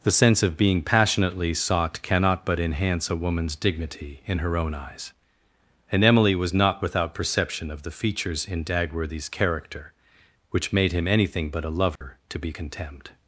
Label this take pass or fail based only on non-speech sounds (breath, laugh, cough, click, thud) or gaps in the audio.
fail